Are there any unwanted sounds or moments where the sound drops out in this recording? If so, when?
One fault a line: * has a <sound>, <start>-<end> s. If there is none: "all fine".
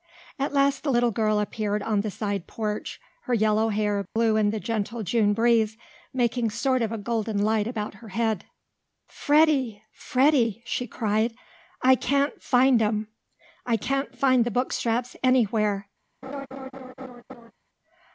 * has a dropout, 4.1-4.2 s
* has a laugh, 16.2-17.5 s